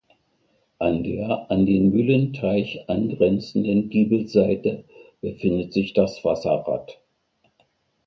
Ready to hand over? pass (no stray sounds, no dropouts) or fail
pass